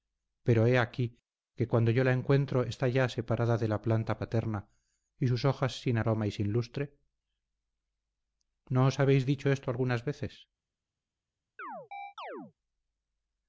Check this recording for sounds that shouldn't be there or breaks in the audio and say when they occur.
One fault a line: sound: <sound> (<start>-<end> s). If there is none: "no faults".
sound: chirp (11.6-12.5 s)